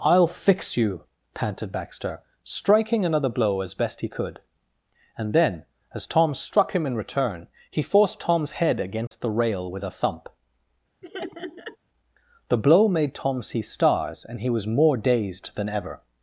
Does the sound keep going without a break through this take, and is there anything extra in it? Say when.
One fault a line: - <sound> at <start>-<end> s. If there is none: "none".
- dropout at 9.1-9.1 s
- laugh at 11.0-11.8 s